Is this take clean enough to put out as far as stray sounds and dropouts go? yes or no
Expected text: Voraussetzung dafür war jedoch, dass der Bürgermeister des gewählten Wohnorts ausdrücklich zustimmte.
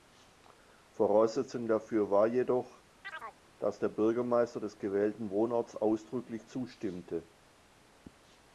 no